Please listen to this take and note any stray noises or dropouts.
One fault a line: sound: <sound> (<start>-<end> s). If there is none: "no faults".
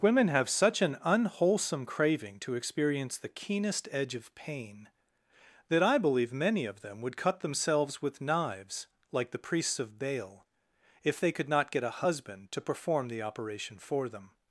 no faults